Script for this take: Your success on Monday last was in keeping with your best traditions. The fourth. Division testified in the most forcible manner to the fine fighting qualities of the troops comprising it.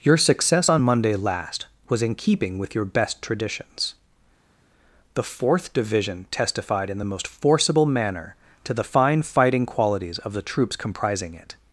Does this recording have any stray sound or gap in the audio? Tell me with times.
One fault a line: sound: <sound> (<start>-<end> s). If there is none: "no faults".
no faults